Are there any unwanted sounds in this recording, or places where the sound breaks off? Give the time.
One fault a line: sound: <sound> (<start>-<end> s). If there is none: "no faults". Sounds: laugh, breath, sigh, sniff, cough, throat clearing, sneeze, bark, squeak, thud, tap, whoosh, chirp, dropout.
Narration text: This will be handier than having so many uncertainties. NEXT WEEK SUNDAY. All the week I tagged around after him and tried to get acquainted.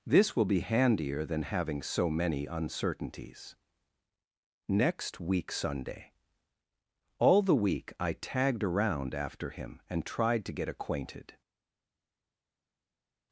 no faults